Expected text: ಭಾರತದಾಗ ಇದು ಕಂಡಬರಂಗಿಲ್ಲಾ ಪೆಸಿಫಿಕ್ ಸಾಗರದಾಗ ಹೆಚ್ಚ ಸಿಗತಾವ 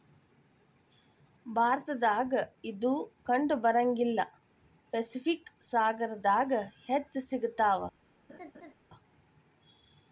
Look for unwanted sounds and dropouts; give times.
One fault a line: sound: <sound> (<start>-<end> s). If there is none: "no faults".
sound: laugh (8.3-8.7 s)